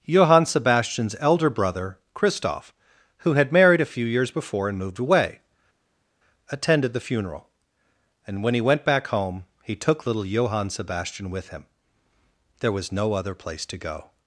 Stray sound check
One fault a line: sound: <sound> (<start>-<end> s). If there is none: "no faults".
no faults